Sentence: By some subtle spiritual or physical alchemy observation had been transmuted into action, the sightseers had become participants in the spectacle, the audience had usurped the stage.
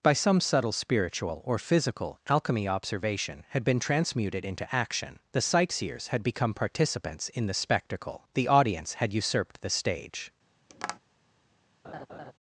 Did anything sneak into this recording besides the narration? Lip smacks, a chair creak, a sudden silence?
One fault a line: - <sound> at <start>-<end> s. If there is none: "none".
- tap at 10.7-11.0 s
- laugh at 11.8-12.3 s